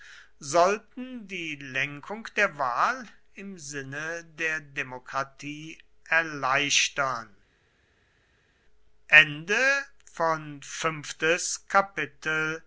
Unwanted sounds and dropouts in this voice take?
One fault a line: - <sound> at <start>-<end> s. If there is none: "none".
none